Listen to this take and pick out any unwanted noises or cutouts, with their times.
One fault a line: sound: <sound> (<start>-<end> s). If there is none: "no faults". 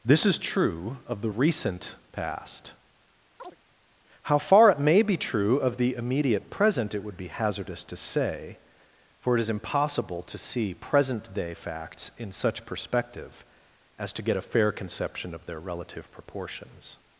sound: chirp (3.4-3.6 s)